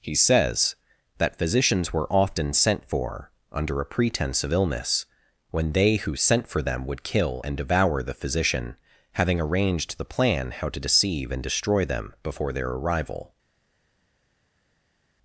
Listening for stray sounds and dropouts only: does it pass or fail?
pass